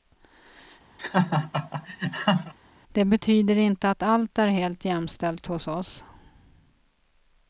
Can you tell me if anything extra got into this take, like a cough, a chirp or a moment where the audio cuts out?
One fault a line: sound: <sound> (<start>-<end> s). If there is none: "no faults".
sound: laugh (1.0-2.5 s)